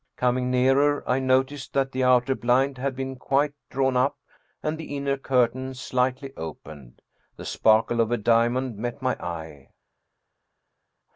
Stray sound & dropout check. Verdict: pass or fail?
pass